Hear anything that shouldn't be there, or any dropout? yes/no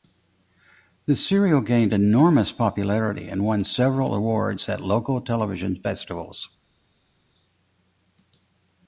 no